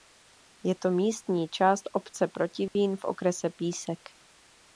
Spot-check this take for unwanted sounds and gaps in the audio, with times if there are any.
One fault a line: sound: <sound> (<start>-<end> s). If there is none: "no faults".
sound: dropout (2.7-2.8 s)